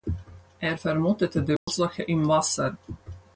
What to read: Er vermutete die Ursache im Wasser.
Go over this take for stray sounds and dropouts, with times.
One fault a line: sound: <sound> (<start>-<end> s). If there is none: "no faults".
sound: dropout (1.6-1.7 s)